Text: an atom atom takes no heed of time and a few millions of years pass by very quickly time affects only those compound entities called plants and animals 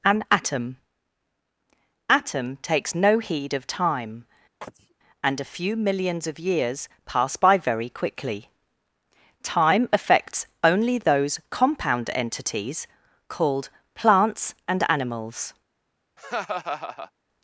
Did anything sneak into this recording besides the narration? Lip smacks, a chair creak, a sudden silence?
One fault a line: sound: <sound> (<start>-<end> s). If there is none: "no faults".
sound: sneeze (4.6-4.9 s)
sound: laugh (16.2-17.1 s)